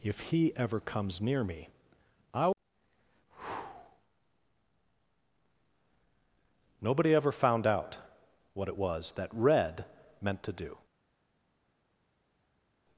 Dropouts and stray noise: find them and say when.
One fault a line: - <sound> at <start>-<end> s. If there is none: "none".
none